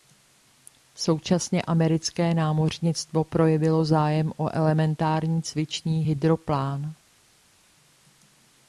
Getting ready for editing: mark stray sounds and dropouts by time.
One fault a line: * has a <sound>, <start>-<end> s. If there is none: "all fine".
all fine